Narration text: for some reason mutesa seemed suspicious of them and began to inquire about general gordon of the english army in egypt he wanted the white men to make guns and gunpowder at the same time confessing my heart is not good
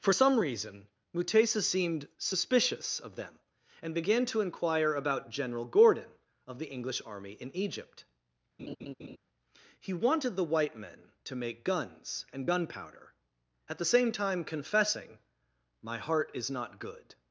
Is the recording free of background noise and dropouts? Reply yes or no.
no